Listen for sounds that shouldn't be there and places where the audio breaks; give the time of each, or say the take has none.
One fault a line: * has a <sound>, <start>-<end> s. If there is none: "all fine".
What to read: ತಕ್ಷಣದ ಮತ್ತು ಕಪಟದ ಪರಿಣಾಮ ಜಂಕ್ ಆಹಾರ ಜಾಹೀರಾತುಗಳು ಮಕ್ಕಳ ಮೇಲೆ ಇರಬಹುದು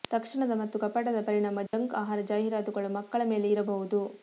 * has a dropout, 1.7-1.7 s